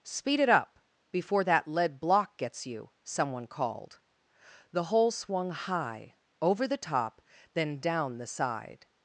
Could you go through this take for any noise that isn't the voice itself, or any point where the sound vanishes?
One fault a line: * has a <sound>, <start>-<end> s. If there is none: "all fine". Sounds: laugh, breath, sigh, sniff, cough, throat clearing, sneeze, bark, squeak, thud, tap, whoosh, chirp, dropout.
all fine